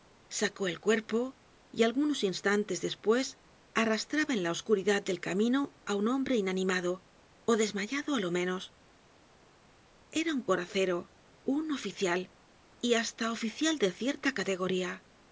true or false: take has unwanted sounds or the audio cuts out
false